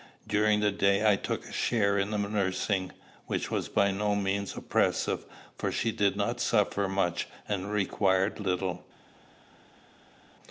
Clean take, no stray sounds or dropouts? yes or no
yes